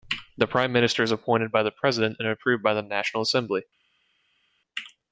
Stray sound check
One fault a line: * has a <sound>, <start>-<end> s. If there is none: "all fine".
all fine